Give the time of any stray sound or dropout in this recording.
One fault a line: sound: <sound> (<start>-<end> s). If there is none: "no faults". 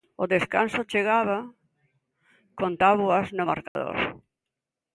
sound: dropout (3.7-3.8 s)